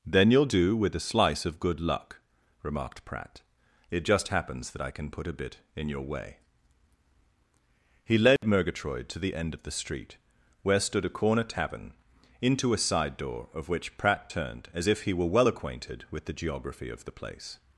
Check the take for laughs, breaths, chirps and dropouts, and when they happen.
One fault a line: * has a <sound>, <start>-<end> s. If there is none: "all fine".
* has a dropout, 8.4-8.4 s